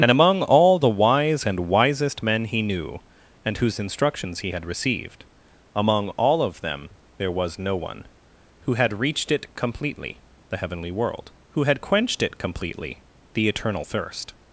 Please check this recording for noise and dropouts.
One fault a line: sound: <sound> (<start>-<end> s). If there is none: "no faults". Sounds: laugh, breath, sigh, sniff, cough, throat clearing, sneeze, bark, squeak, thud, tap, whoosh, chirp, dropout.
no faults